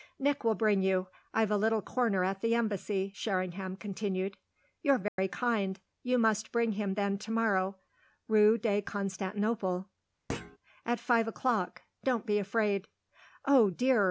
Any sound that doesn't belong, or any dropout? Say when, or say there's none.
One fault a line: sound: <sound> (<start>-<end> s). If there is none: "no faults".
sound: dropout (5.1-5.2 s)
sound: thud (10.3-10.6 s)